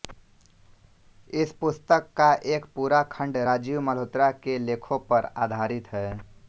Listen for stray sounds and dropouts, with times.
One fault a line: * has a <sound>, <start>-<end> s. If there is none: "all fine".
all fine